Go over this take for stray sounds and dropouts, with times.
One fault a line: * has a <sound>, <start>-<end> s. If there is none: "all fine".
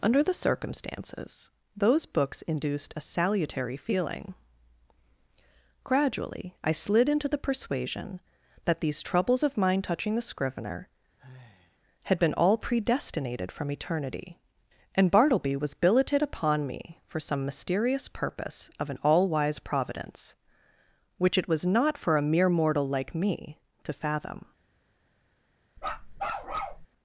* has a sigh, 11.2-11.8 s
* has a bark, 25.8-26.9 s